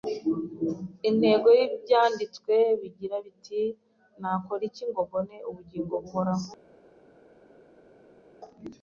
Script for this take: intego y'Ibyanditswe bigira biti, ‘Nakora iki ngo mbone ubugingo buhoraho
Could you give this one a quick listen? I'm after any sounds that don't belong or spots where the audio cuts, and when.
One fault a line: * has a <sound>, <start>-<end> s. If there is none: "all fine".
all fine